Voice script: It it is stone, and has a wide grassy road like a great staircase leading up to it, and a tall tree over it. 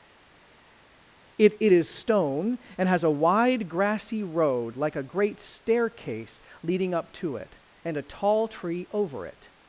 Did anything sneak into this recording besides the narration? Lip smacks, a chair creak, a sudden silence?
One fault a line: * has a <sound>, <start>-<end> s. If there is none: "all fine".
all fine